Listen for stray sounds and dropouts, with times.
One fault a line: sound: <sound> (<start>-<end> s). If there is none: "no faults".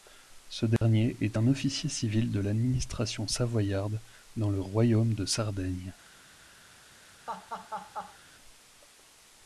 sound: dropout (0.8-0.8 s)
sound: laugh (7.3-8.2 s)